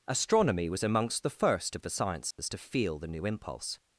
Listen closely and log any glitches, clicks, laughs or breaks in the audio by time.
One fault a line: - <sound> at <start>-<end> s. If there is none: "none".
- dropout at 2.3-2.4 s